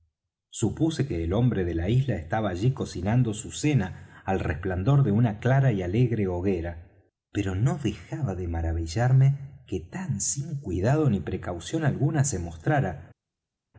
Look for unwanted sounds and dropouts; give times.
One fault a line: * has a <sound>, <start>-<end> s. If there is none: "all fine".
all fine